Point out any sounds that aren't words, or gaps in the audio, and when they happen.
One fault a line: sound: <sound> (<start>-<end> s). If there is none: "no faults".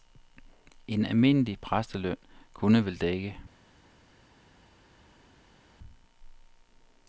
no faults